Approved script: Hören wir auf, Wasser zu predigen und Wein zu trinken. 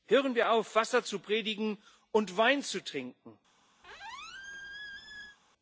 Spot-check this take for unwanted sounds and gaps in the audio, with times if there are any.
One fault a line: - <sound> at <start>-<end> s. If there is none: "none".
- squeak at 3.8-5.4 s